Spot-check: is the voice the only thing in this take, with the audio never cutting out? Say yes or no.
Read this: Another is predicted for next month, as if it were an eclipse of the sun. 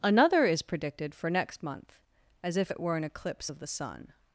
yes